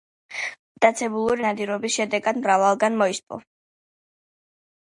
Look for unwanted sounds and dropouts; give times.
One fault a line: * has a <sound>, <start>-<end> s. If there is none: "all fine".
all fine